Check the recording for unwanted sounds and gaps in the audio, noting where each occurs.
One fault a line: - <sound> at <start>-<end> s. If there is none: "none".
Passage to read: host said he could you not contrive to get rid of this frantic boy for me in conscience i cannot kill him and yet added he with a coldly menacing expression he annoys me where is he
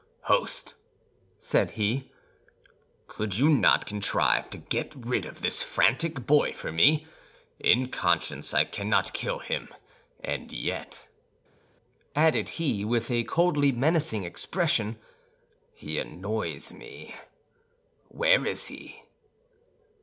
none